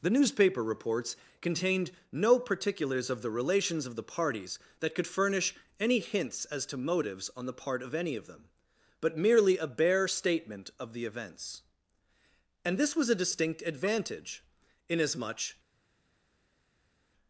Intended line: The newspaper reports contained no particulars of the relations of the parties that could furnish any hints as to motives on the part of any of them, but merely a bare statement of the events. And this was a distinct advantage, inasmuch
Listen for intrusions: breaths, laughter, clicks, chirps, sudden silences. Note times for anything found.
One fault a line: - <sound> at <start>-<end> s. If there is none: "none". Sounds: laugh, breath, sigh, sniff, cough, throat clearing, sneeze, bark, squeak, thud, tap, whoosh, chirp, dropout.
none